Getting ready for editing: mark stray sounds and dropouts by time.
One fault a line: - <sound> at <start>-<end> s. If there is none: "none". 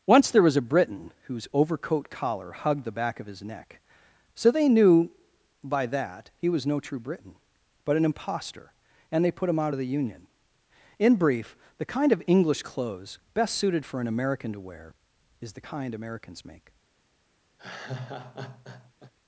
- laugh at 17.6-19.1 s